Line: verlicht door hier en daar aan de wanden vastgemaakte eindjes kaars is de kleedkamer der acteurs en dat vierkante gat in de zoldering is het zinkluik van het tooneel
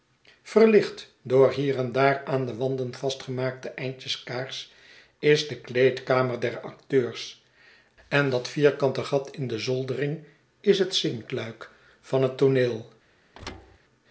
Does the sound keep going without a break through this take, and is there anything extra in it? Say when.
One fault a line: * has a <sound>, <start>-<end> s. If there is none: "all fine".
* has a thud, 13.3-13.8 s